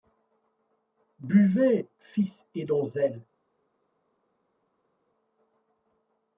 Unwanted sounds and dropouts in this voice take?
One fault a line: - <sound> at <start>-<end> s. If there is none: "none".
none